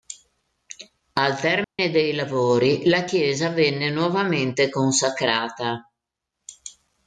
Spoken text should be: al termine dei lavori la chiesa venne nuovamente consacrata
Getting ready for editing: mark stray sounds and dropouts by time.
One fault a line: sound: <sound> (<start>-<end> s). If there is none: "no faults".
sound: dropout (1.6-1.8 s)